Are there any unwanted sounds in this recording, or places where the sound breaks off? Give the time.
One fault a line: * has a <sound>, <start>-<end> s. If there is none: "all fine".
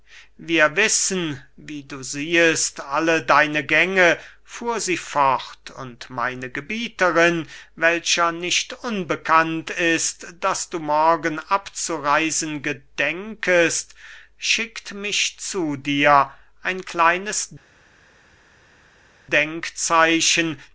all fine